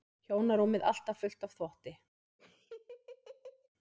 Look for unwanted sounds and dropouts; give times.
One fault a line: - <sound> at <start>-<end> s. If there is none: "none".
- laugh at 2.4-3.7 s